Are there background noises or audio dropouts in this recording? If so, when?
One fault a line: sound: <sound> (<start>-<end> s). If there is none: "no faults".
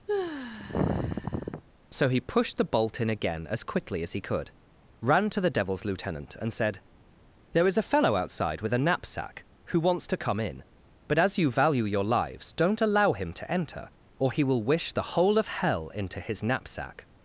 sound: sigh (0.1-1.6 s)